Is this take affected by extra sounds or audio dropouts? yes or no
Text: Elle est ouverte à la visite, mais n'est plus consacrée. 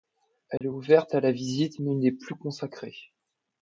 yes